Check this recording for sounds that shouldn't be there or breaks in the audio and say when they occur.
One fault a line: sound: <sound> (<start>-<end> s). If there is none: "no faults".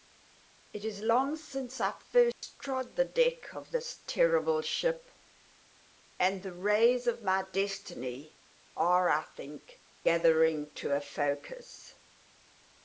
sound: dropout (2.3-2.4 s)